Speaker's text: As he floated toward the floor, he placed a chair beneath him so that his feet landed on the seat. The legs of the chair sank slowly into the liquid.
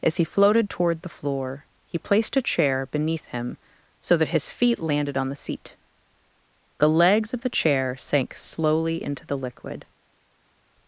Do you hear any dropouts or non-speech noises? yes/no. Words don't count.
no